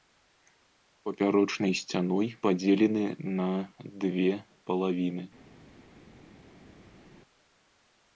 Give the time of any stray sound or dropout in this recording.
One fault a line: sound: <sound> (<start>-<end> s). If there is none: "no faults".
no faults